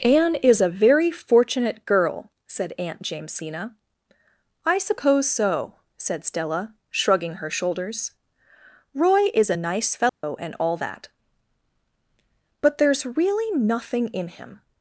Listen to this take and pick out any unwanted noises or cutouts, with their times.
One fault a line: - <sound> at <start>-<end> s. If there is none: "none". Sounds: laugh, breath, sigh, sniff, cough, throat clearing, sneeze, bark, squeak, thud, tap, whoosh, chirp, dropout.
- dropout at 10.1-10.2 s